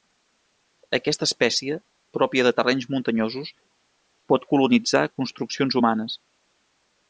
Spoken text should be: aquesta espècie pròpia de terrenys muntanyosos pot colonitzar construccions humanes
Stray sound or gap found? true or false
false